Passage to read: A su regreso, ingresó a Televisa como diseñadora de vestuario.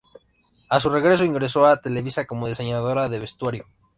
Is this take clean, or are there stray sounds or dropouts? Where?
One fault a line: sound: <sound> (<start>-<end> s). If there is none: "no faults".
no faults